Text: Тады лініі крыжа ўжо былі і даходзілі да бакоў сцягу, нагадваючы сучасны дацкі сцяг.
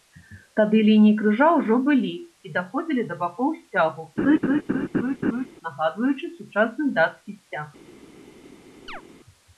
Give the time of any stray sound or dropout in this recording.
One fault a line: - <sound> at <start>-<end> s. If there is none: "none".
- laugh at 4.2-5.5 s
- chirp at 8.9-9.0 s